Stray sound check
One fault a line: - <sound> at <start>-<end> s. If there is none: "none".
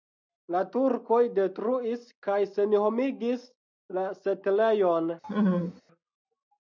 - laugh at 5.2-5.8 s